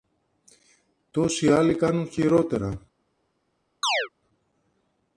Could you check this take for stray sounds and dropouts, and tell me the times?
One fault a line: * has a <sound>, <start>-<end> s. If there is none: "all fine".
* has a chirp, 3.8-4.1 s